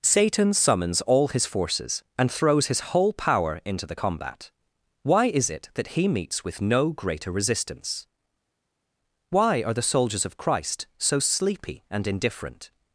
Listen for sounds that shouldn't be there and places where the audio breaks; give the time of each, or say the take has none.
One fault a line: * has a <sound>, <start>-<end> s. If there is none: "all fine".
all fine